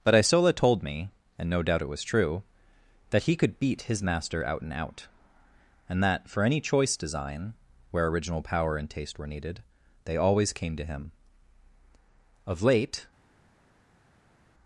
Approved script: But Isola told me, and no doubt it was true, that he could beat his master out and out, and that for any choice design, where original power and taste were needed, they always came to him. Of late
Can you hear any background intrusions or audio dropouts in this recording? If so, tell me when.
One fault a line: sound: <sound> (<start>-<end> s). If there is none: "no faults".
no faults